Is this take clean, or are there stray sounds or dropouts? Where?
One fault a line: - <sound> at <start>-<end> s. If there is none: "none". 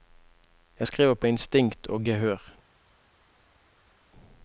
none